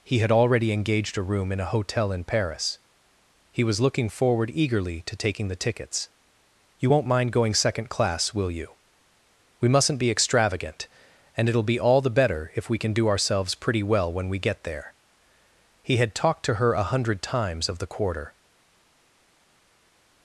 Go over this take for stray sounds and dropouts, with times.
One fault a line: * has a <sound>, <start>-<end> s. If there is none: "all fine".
all fine